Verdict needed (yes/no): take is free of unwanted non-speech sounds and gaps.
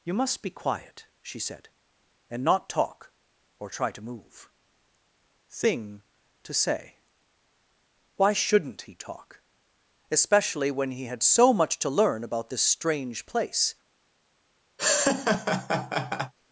no